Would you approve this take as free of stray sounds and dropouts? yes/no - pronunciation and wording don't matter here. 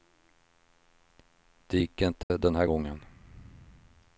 no